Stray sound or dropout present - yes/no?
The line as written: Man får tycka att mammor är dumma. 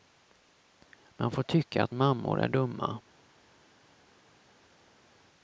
no